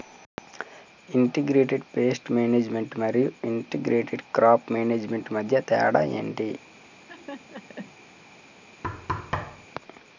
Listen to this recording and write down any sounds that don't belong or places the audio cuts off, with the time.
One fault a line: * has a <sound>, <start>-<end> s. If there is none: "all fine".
* has a laugh, 6.9-7.9 s
* has a thud, 8.8-9.7 s